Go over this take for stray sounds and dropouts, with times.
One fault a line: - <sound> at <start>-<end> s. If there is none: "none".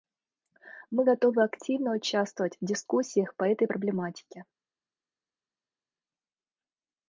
none